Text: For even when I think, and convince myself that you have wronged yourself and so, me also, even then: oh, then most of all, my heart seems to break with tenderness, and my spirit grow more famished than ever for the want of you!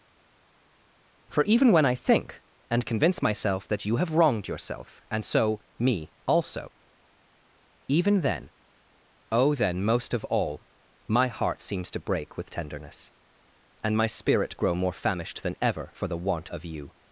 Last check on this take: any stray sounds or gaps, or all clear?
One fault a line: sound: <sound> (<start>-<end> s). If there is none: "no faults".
no faults